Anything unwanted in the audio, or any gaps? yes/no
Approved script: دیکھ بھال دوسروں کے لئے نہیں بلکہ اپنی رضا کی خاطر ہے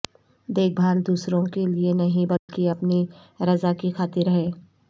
yes